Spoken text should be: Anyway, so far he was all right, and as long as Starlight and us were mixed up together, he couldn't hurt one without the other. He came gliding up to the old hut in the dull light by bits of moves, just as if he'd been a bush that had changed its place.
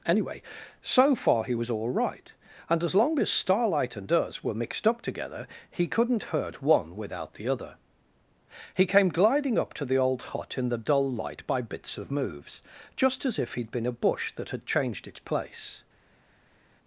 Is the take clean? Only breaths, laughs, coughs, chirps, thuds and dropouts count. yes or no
yes